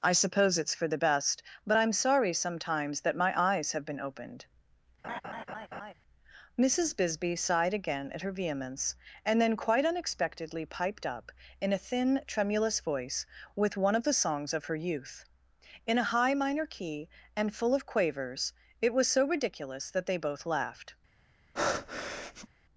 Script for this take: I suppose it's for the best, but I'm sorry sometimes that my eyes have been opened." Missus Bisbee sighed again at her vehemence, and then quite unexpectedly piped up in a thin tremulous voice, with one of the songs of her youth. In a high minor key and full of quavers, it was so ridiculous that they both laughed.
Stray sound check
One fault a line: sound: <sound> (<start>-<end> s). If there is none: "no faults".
sound: laugh (5.0-5.9 s)
sound: breath (21.5-22.5 s)